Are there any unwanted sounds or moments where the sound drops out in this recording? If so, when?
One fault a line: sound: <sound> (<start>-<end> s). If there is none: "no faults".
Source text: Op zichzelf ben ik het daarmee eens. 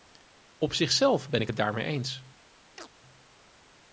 sound: chirp (2.8-2.9 s)